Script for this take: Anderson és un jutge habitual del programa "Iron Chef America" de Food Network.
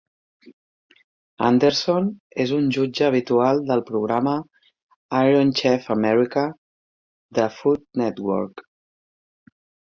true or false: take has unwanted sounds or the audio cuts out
false